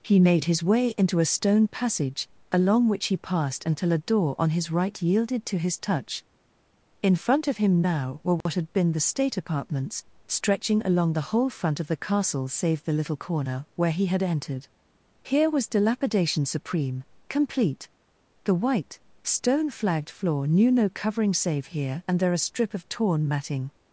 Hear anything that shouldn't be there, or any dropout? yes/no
yes